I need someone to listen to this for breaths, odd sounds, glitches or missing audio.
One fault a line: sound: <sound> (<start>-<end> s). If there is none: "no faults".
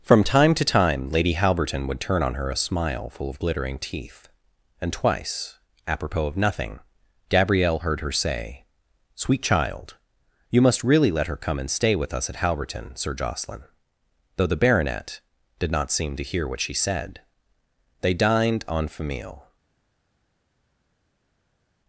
no faults